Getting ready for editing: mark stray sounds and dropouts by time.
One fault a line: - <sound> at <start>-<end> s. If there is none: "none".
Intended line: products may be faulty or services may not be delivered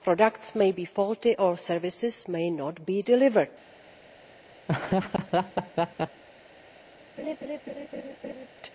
- laugh at 4.7-6.2 s
- laugh at 7.2-8.5 s